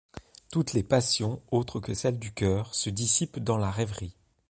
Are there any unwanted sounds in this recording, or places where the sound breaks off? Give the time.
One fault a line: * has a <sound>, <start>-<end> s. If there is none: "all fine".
all fine